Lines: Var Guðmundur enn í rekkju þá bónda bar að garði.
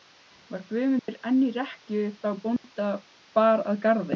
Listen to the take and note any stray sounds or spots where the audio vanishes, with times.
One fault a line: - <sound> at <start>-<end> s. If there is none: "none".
- dropout at 1.0-1.1 s
- dropout at 2.6-2.6 s